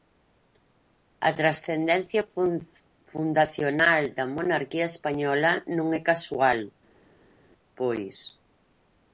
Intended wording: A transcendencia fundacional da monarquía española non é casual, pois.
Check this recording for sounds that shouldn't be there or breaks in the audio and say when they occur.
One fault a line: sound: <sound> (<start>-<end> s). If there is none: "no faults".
no faults